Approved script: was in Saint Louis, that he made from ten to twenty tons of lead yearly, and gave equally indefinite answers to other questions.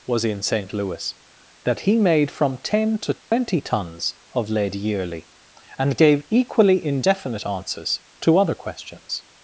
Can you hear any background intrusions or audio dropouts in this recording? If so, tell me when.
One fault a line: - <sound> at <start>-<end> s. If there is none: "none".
- dropout at 3.2-3.3 s